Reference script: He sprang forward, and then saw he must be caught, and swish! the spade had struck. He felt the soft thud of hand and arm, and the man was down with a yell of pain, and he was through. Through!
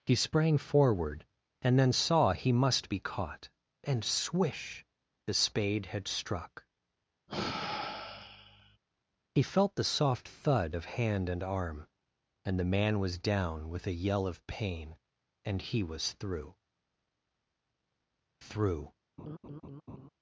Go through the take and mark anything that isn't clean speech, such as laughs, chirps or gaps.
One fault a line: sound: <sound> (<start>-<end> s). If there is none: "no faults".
sound: sigh (7.3-8.8 s)
sound: laugh (19.2-20.1 s)